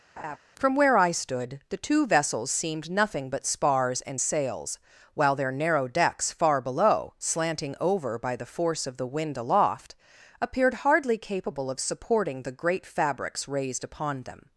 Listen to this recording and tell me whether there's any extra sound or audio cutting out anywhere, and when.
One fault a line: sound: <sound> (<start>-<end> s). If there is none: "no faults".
sound: laugh (0.2-0.4 s)